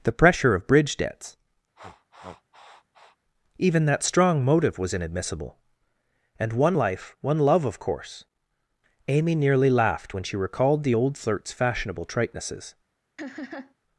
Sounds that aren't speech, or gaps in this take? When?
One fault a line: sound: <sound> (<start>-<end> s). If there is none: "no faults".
sound: sniff (1.7-3.2 s)
sound: laugh (13.2-13.7 s)